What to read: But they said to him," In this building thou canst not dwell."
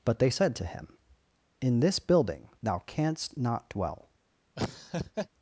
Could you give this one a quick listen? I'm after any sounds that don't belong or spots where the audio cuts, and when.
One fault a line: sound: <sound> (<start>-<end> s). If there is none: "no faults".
sound: laugh (4.6-5.3 s)